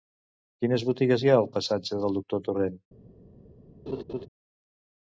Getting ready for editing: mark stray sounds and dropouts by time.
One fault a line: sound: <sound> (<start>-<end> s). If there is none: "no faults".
sound: laugh (3.9-4.3 s)